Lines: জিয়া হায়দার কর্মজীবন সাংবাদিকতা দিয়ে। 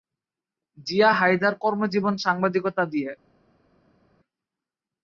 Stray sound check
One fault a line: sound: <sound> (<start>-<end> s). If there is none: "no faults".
no faults